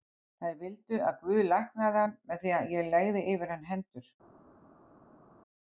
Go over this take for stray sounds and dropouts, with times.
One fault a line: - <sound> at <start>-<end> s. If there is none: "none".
none